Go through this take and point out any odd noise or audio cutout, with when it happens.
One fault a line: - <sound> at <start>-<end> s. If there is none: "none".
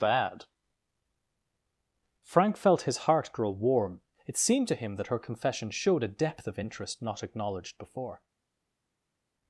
none